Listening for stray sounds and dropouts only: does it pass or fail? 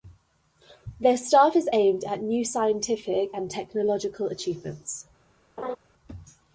fail